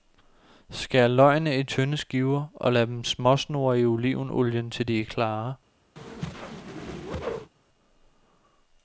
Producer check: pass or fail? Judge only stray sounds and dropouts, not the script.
fail